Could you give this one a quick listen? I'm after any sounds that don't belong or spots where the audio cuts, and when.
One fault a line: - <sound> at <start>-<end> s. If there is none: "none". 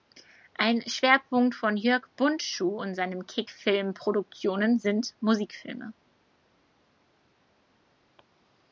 none